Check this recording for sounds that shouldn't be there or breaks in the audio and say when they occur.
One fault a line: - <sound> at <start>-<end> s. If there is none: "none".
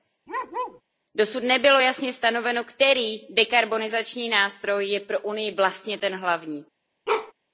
- bark at 0.3-0.8 s
- bark at 7.1-7.3 s